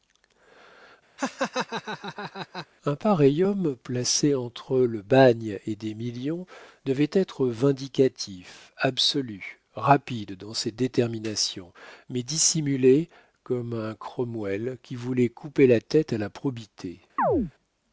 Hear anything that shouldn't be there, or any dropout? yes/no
yes